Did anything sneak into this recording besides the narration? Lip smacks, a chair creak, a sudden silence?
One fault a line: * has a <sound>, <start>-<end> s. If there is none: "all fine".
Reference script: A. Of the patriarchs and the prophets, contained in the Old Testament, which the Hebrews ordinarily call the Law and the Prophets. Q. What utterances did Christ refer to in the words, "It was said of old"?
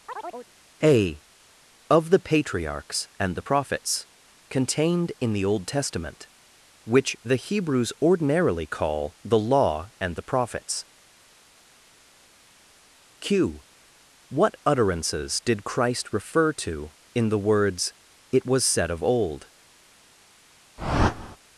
* has a chirp, 0.1-0.5 s
* has a whoosh, 20.8-21.4 s